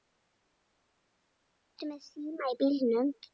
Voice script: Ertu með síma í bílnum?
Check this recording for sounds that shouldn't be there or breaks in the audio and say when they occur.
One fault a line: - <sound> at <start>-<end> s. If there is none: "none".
none